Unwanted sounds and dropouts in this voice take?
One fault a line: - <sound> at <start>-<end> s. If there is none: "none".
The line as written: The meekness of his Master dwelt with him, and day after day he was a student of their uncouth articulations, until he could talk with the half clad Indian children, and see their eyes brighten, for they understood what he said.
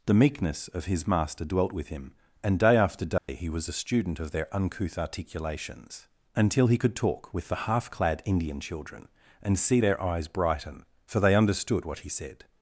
- dropout at 3.2-3.3 s